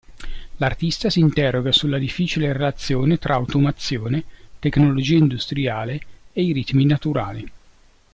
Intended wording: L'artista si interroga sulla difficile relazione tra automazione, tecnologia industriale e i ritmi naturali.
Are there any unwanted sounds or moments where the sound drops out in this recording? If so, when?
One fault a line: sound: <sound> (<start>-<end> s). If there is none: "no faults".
no faults